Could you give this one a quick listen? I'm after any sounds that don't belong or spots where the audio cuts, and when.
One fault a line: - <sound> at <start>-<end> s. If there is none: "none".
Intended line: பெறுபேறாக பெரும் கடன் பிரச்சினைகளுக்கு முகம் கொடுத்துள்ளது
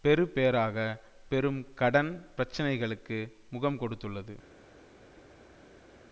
none